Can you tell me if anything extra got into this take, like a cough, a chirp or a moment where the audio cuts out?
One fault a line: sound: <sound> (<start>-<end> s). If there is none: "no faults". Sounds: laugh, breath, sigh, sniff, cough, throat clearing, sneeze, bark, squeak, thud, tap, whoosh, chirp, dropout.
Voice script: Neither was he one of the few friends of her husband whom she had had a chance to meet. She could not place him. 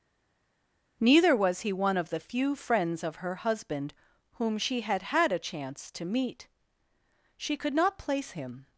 no faults